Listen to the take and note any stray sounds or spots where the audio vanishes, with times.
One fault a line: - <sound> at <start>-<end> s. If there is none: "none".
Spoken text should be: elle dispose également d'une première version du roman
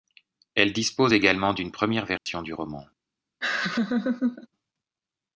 - dropout at 2.2-2.3 s
- laugh at 3.4-4.5 s